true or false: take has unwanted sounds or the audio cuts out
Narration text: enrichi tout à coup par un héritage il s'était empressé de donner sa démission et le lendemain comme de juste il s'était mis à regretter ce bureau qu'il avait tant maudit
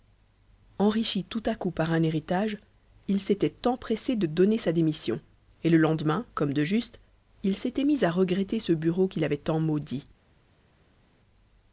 false